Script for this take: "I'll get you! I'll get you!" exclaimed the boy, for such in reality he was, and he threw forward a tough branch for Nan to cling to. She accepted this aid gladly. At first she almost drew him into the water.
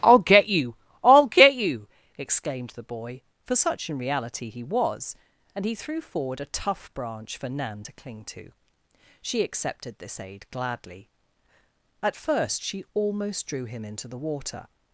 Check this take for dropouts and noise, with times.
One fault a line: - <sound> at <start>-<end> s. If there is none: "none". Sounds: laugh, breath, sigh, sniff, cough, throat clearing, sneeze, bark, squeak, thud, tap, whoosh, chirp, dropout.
none